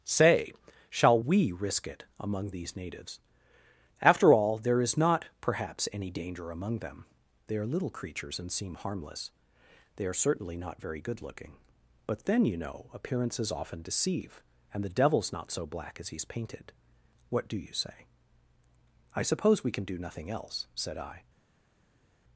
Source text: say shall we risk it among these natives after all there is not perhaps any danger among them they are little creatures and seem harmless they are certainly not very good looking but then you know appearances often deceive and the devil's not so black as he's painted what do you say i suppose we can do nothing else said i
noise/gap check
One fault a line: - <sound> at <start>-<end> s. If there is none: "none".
none